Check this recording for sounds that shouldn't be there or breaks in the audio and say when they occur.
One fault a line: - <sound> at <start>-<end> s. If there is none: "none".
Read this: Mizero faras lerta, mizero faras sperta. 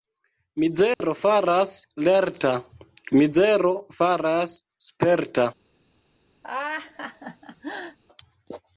- dropout at 0.9-1.0 s
- laugh at 6.4-8.0 s